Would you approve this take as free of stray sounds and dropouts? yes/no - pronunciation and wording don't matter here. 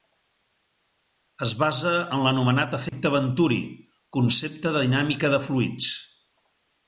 no